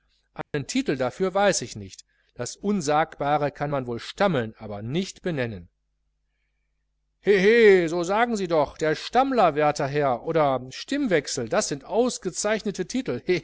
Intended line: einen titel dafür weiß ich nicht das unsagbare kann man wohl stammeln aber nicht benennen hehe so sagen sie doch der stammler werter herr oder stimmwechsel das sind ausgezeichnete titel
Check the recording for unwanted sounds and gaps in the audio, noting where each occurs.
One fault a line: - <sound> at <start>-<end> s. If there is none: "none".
- dropout at 0.4-0.5 s